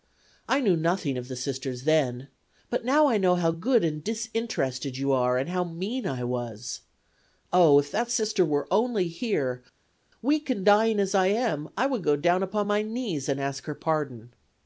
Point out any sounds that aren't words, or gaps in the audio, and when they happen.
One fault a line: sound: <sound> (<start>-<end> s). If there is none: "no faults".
no faults